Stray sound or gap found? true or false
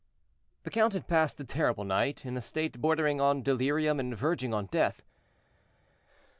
false